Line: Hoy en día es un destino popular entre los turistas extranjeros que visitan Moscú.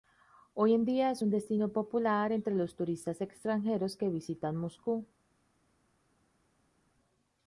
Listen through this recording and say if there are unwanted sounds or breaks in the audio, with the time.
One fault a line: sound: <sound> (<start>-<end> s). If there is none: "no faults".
no faults